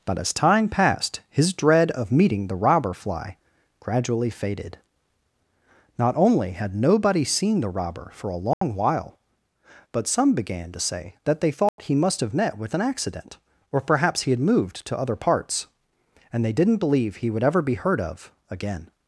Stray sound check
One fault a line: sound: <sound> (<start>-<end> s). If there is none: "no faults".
sound: dropout (8.5-8.6 s)
sound: dropout (11.7-11.8 s)